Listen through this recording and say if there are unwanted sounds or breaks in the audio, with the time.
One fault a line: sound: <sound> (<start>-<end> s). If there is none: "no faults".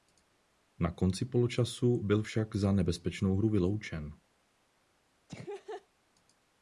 sound: laugh (5.3-5.9 s)